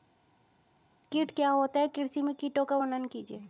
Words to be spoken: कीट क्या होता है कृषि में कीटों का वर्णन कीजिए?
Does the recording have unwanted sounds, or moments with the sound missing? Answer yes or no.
no